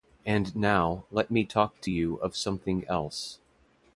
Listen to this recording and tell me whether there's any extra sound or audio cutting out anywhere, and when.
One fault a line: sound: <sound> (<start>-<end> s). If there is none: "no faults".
no faults